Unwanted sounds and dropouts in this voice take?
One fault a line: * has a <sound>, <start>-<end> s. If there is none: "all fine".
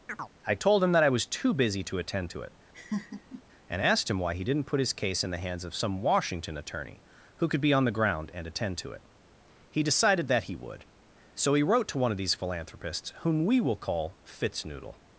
* has a chirp, 0.1-0.3 s
* has a laugh, 2.7-3.4 s